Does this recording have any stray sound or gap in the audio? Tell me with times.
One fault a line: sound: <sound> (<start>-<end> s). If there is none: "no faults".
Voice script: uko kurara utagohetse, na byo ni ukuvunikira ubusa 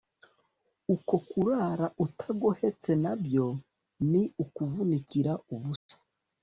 sound: dropout (5.8-5.9 s)